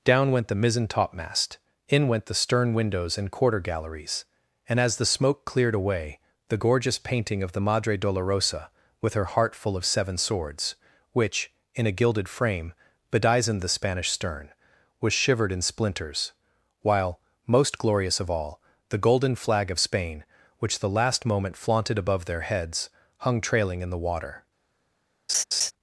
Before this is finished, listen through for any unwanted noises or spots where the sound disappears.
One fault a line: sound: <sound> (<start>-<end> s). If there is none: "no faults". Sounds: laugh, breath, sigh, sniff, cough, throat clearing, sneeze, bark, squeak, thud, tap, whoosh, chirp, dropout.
sound: laugh (25.3-25.7 s)